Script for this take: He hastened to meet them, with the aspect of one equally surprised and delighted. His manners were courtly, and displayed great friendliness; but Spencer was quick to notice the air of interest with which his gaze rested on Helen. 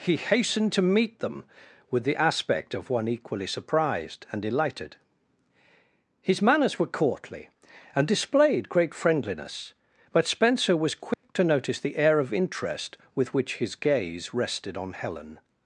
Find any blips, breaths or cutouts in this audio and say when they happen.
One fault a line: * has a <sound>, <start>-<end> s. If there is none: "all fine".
* has a dropout, 11.1-11.2 s